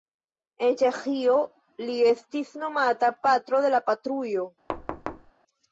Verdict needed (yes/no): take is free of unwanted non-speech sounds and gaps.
no